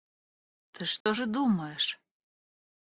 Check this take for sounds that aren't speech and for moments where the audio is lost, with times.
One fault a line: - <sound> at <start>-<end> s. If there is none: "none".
- dropout at 1.0-1.1 s